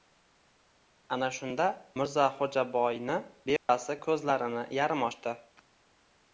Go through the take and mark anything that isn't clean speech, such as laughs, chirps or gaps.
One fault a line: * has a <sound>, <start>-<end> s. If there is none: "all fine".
* has a dropout, 3.6-3.7 s